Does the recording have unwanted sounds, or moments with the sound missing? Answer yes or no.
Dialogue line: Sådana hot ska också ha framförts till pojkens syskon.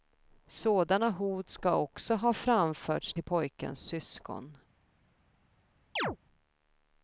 yes